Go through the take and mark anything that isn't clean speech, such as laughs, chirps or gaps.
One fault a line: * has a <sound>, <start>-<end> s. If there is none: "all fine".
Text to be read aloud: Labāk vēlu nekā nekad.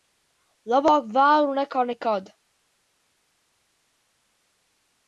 all fine